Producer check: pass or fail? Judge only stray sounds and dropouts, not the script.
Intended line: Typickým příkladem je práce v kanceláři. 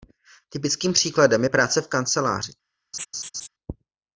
fail